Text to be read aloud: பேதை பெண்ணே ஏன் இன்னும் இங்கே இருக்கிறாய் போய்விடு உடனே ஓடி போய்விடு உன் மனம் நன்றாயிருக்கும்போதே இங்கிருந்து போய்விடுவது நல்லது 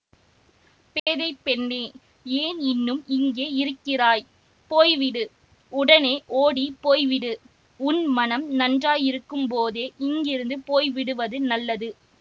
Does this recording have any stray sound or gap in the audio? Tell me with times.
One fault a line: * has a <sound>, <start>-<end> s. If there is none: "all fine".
* has a dropout, 1.0-1.1 s